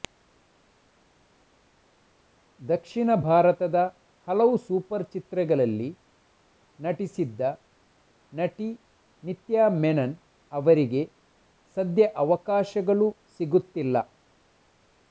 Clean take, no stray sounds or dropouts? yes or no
yes